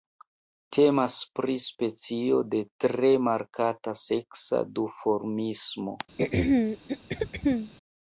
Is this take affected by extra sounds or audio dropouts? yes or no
yes